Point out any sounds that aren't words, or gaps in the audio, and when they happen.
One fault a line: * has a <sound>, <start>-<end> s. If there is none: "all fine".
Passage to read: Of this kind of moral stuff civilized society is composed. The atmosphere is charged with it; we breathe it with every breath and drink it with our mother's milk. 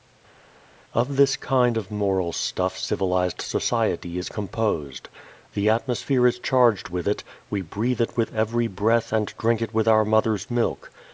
all fine